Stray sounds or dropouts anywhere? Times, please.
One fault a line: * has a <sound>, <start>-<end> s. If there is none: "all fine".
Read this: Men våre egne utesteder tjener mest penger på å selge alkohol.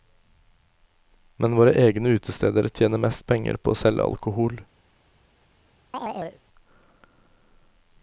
* has a chirp, 5.9-6.4 s